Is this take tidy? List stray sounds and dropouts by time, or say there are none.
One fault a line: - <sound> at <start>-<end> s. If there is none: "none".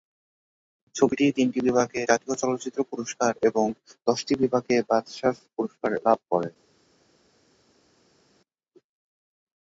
none